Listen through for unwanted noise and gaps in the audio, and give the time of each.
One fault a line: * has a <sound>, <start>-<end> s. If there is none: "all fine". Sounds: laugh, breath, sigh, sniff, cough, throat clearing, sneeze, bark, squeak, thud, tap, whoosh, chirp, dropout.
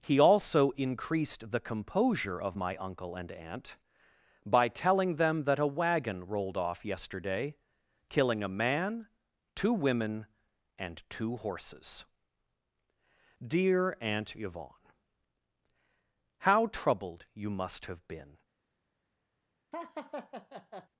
* has a laugh, 19.7-20.9 s